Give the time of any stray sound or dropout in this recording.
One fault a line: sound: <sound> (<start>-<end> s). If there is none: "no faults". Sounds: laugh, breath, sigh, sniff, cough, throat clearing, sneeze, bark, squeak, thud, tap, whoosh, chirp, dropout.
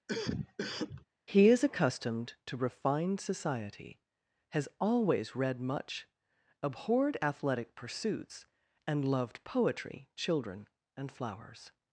sound: cough (0.1-1.1 s)